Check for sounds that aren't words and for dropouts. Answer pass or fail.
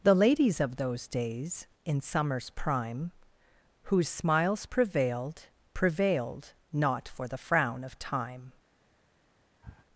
fail